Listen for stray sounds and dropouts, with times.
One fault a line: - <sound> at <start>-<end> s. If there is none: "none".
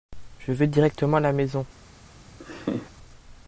- laugh at 2.4-2.9 s